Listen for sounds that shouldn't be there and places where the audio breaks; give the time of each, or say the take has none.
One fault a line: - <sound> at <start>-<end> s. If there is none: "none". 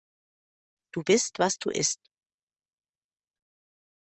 none